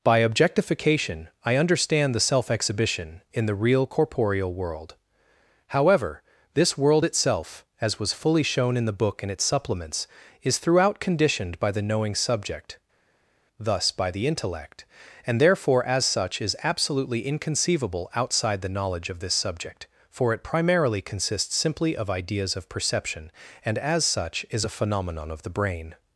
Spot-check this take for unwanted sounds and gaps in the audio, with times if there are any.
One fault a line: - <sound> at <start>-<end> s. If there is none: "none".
none